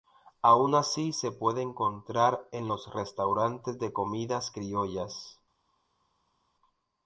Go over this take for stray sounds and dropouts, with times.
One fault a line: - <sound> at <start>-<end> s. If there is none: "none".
none